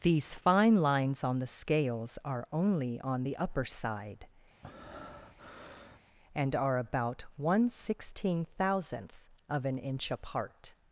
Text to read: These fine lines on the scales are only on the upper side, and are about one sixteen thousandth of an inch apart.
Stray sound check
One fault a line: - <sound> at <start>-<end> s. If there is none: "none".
- breath at 4.6-6.0 s